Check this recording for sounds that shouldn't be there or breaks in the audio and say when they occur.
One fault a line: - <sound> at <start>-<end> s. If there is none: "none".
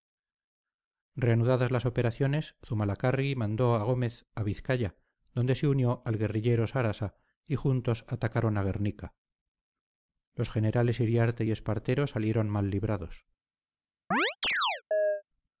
- chirp at 14.1-15.2 s